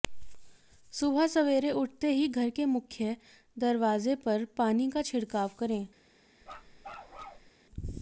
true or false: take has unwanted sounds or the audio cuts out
true